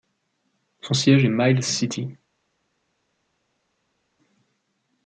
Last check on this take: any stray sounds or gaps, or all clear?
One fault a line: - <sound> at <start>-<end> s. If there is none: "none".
none